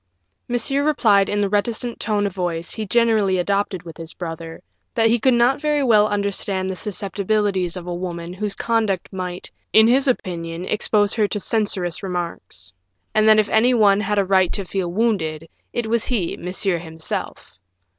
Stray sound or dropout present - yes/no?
no